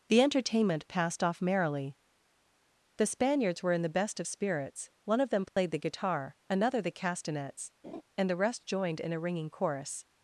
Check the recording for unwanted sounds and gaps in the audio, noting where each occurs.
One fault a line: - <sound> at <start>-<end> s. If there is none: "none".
- dropout at 5.5-5.6 s
- laugh at 7.8-8.0 s